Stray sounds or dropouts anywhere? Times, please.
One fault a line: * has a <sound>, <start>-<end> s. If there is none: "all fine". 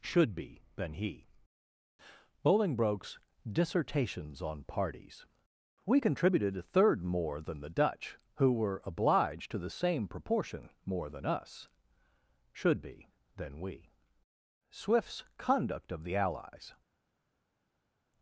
all fine